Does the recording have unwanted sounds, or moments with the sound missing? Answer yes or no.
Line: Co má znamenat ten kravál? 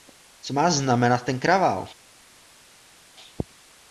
no